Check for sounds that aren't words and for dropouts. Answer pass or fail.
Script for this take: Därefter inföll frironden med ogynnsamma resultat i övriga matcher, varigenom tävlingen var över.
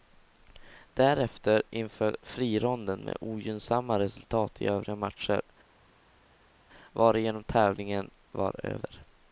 pass